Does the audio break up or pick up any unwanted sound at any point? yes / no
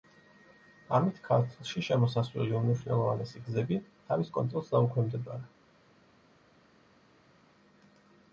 no